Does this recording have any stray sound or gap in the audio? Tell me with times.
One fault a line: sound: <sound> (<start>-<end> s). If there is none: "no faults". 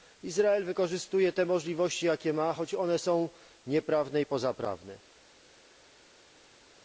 no faults